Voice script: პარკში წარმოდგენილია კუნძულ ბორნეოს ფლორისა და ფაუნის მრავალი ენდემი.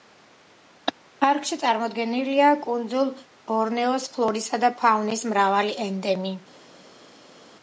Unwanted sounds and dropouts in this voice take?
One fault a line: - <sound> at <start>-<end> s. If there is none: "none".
none